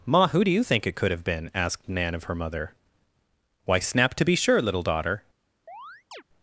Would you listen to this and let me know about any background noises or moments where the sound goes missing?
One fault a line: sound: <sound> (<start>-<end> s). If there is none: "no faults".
sound: chirp (5.7-6.2 s)